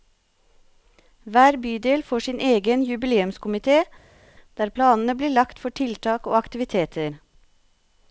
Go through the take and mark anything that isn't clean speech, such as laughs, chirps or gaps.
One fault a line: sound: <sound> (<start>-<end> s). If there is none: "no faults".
no faults